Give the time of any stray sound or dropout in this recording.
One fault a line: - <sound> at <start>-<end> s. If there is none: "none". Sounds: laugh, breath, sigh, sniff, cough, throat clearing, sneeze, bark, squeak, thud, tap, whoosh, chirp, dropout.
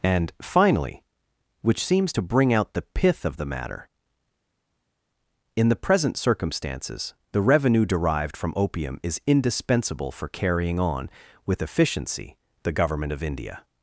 none